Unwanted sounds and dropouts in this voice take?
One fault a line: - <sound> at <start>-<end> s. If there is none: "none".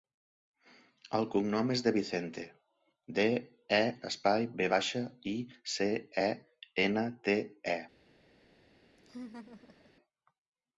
- laugh at 9.0-9.9 s